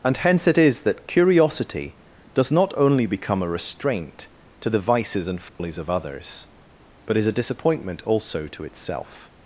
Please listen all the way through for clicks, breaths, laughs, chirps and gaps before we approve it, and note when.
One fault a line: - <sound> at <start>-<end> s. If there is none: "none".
- dropout at 5.5-5.6 s